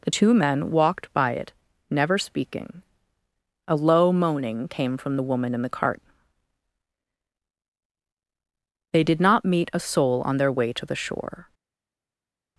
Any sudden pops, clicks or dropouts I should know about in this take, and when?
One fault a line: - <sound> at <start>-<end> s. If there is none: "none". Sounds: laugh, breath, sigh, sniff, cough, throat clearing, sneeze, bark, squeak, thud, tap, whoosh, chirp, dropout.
none